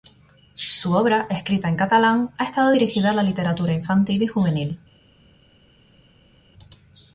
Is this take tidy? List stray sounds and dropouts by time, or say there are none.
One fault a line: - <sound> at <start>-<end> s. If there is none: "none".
none